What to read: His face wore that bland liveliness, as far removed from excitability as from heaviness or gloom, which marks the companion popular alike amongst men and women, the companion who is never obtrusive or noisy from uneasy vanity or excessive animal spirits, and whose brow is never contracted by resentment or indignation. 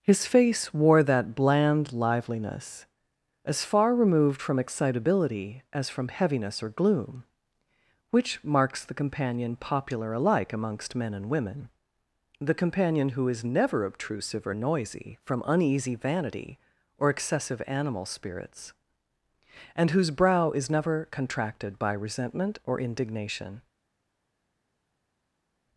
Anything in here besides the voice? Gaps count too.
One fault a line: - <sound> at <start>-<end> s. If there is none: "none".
none